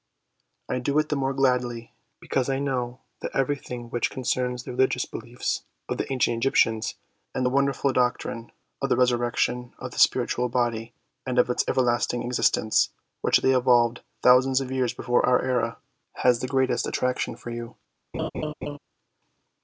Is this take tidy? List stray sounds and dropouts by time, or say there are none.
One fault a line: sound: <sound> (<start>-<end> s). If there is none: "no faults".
sound: laugh (18.1-18.8 s)